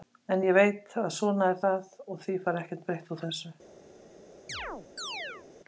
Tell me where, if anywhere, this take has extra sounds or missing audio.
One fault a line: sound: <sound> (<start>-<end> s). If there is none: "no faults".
sound: chirp (4.5-5.5 s)